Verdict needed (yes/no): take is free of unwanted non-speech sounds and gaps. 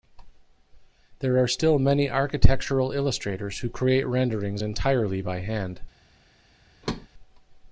no